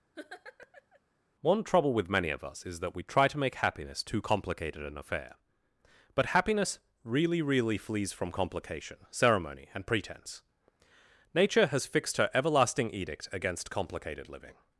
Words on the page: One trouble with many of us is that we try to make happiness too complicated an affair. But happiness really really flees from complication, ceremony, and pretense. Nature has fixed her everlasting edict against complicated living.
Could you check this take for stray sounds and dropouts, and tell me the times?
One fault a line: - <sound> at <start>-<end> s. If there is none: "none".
- laugh at 0.2-1.0 s